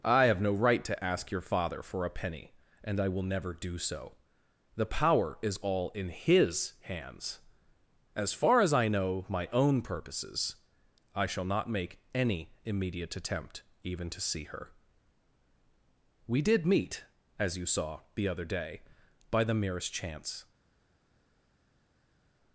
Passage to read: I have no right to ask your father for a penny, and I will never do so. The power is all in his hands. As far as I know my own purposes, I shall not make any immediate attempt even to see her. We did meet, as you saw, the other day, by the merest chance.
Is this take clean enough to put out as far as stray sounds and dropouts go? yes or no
yes